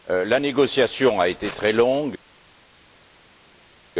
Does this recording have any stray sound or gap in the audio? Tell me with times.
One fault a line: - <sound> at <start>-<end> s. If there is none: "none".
none